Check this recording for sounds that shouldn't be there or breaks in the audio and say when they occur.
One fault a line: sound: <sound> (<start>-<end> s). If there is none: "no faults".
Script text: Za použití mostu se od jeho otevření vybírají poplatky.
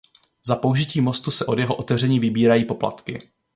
no faults